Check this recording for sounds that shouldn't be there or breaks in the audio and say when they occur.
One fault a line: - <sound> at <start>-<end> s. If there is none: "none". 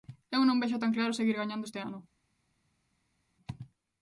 none